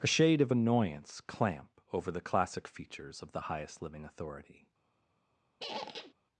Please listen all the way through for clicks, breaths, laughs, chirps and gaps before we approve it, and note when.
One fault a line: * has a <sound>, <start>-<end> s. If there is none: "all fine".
* has a squeak, 5.6-6.1 s